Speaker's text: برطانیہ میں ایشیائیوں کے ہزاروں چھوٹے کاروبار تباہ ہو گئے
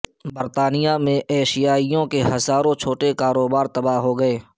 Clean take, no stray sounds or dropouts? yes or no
yes